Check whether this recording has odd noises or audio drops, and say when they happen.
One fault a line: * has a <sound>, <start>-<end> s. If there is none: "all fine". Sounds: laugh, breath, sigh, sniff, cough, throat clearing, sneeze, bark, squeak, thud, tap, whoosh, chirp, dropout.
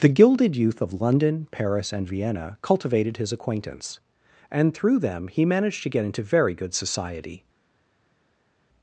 all fine